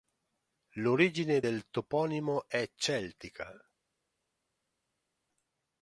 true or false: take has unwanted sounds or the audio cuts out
false